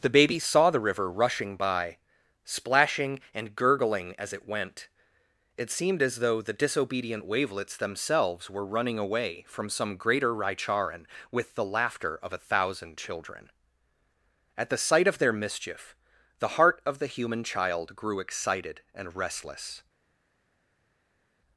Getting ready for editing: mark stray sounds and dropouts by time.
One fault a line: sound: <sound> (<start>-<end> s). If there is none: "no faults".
no faults